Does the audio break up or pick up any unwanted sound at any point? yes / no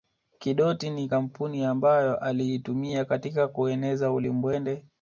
no